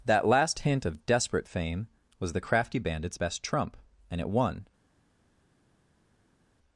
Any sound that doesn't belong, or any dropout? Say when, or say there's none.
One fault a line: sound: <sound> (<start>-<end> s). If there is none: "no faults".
no faults